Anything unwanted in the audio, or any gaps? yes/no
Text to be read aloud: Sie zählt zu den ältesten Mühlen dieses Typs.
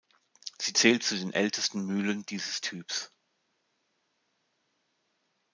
no